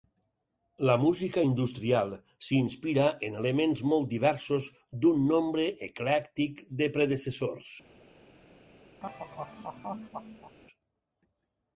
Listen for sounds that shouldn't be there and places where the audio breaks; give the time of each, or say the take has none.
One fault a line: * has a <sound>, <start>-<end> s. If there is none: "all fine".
* has a laugh, 9.0-10.6 s